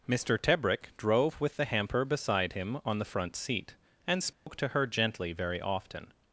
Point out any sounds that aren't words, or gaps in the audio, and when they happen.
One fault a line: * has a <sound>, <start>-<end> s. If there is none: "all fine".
* has a dropout, 4.3-4.5 s